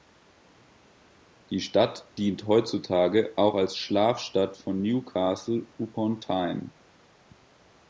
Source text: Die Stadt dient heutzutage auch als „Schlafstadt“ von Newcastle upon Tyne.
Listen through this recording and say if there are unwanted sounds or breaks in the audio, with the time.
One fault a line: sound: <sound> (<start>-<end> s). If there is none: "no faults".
no faults